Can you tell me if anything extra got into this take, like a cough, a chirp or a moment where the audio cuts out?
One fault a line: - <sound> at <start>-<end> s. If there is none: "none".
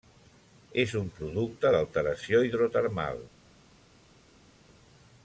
none